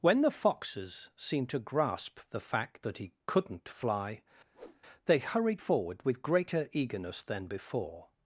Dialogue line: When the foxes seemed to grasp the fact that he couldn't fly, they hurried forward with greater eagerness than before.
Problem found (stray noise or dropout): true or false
true